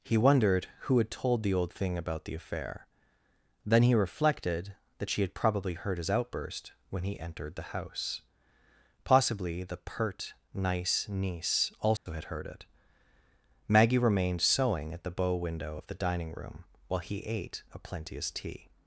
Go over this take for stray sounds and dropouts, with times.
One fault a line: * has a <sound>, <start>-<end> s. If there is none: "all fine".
* has a dropout, 12.0-12.1 s